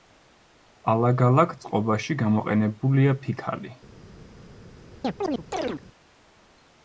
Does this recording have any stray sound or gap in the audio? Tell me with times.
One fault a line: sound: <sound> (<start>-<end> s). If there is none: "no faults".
sound: chirp (5.0-5.8 s)